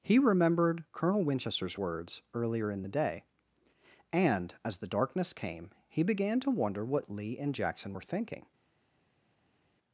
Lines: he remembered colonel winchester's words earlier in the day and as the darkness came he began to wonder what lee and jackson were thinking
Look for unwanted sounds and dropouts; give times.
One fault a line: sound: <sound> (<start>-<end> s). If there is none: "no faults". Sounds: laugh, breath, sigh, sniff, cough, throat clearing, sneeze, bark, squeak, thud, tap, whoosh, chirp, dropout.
no faults